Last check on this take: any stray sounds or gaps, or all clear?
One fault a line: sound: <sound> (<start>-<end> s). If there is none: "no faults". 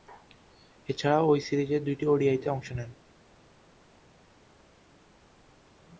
no faults